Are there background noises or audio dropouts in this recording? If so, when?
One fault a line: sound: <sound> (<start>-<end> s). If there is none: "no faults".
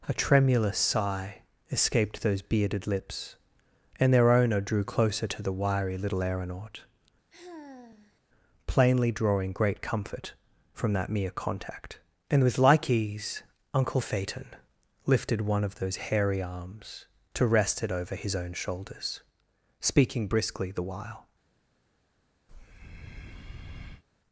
sound: sigh (7.3-8.2 s)
sound: breath (22.5-24.0 s)